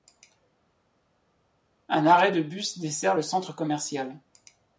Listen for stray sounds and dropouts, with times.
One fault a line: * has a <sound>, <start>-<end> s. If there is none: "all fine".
all fine